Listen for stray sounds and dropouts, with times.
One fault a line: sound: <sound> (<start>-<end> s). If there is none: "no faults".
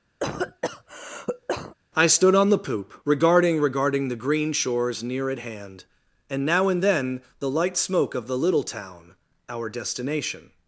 sound: cough (0.2-1.7 s)